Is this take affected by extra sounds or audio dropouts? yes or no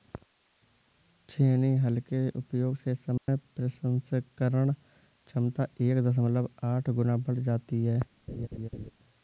yes